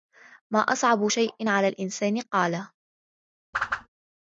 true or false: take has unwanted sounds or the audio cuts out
true